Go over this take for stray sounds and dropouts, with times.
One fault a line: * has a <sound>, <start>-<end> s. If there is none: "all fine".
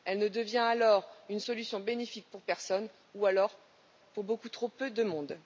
all fine